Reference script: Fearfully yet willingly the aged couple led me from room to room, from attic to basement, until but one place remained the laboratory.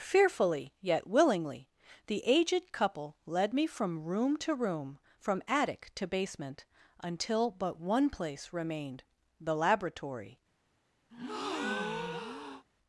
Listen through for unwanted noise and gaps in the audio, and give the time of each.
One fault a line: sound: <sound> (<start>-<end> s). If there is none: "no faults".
sound: breath (11.1-12.6 s)